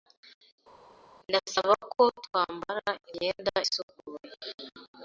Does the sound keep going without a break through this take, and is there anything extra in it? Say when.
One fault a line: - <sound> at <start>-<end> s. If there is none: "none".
none